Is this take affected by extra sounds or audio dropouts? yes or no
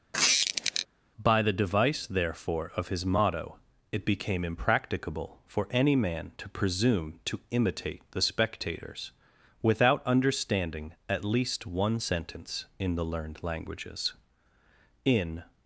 yes